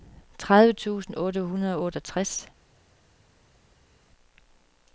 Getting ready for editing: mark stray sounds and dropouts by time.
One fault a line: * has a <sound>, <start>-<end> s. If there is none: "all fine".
all fine